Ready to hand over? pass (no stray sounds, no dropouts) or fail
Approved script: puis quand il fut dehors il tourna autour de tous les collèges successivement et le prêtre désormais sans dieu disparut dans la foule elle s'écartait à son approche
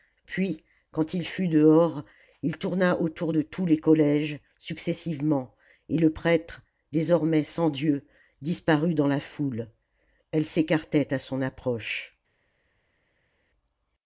pass